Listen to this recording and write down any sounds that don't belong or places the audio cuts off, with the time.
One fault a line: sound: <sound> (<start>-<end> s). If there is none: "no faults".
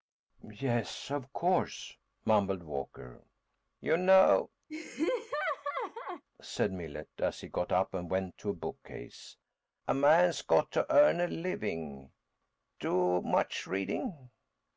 sound: laugh (4.7-6.2 s)